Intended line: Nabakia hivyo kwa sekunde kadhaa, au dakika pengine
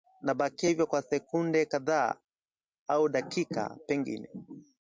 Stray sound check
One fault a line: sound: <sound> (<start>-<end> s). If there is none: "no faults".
no faults